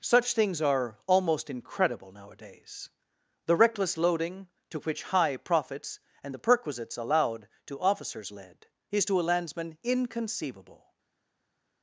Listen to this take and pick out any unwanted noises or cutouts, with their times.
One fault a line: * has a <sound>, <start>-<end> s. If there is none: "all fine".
all fine